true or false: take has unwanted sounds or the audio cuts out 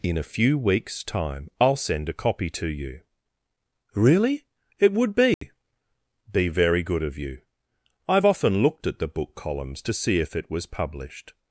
true